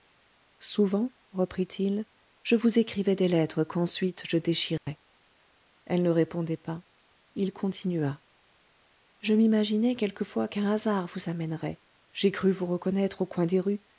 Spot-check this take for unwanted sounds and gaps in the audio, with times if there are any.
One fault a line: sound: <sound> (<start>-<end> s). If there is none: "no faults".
sound: dropout (4.8-4.9 s)